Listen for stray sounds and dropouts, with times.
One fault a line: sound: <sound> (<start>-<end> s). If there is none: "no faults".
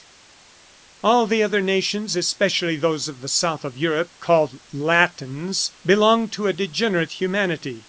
no faults